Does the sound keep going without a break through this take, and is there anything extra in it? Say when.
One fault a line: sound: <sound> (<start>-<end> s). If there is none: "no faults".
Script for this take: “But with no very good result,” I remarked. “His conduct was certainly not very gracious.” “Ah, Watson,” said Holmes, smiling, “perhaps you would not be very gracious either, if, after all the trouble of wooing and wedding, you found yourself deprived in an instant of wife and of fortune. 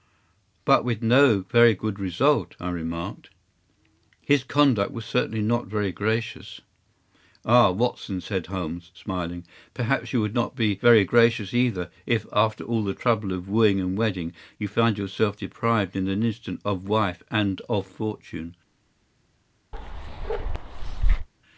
sound: bark (19.7-21.3 s)